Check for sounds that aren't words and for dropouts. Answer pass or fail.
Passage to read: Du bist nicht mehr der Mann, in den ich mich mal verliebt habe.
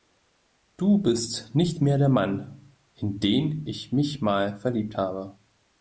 pass